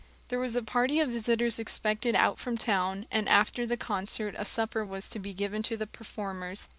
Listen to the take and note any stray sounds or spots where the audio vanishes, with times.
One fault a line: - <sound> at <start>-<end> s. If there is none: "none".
none